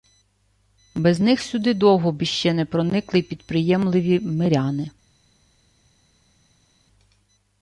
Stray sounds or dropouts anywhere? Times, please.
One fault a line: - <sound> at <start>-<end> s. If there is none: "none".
none